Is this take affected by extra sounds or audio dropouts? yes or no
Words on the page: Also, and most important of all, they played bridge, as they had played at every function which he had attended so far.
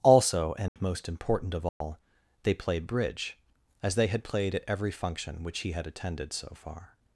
yes